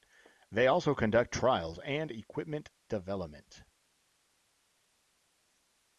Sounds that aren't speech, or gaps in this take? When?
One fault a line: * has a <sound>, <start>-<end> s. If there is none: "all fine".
all fine